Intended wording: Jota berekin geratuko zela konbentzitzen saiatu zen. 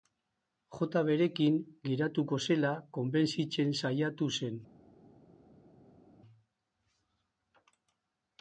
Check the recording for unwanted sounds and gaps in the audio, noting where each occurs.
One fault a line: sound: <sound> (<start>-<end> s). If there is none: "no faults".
no faults